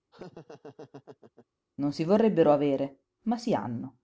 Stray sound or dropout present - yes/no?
yes